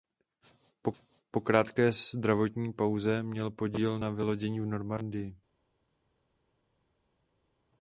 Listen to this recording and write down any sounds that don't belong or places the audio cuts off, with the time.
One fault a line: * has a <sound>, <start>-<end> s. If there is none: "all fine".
all fine